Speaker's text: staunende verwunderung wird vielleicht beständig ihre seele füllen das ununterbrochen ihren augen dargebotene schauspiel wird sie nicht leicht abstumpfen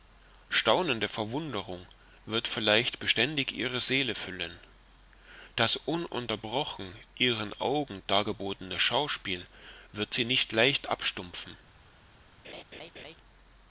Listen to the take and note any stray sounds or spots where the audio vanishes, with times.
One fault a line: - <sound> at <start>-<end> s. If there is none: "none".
- laugh at 12.4-13.2 s